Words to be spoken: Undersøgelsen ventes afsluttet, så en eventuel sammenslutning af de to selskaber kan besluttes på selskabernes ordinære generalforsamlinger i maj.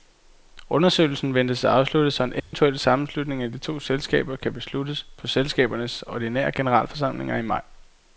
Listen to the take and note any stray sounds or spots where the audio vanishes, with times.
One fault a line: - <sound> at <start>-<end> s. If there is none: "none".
- dropout at 2.4-2.5 s